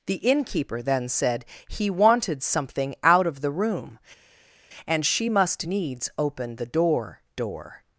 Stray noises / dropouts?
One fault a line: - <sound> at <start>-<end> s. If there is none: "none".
none